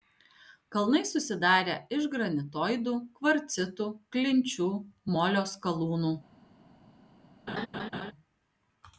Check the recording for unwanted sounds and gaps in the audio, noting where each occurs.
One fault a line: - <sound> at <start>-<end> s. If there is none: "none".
- laugh at 7.5-8.1 s